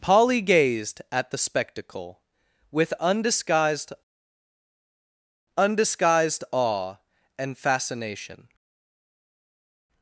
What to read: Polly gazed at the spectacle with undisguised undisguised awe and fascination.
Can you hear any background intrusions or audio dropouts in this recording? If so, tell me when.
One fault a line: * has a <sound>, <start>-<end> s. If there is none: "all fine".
all fine